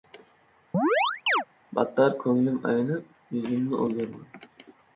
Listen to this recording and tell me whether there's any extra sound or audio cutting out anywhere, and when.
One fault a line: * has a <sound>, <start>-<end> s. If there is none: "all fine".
* has a chirp, 0.7-1.4 s